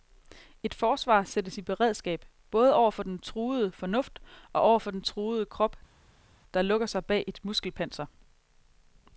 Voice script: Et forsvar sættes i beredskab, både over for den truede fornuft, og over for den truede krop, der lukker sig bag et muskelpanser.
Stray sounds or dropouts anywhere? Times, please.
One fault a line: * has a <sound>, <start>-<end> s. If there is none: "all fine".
all fine